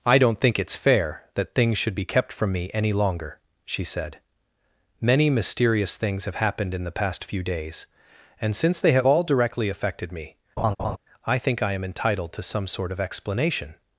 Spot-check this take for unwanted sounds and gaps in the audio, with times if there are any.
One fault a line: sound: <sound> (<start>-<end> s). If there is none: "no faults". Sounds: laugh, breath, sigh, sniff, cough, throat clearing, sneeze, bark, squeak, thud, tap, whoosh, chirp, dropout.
sound: laugh (10.6-11.0 s)